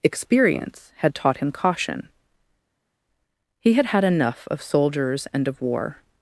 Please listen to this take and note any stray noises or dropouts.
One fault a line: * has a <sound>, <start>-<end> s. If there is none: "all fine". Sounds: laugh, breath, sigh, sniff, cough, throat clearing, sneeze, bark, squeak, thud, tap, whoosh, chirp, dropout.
all fine